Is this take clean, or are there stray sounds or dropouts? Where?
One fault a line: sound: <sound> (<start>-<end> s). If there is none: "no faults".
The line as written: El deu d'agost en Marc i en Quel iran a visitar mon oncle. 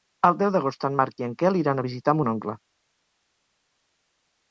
no faults